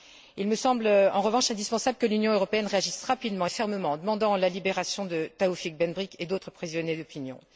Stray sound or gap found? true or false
false